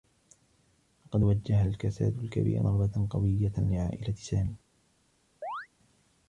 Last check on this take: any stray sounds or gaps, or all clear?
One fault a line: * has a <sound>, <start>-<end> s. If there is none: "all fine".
* has a chirp, 5.4-5.7 s